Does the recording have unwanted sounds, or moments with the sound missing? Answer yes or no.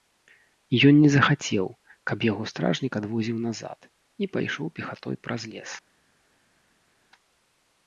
no